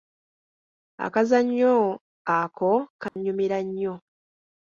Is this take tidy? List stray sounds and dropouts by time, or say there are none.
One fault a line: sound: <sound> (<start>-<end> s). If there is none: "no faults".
sound: dropout (3.1-3.2 s)